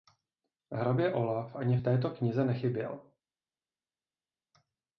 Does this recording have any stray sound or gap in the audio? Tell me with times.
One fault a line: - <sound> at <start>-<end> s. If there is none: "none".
none